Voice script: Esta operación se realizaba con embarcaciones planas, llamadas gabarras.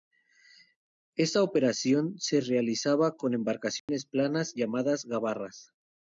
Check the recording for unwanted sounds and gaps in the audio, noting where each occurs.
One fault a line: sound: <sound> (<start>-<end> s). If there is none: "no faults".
sound: dropout (3.8-3.9 s)